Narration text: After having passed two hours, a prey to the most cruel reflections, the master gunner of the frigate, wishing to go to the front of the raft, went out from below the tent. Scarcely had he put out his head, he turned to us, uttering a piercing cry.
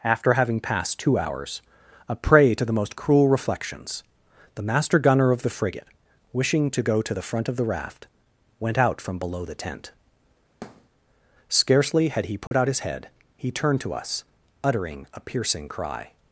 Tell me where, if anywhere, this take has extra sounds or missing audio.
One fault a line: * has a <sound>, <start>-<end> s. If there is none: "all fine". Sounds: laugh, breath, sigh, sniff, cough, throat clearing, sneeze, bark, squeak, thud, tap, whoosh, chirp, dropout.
* has a thud, 10.6-10.9 s
* has a dropout, 12.5-12.5 s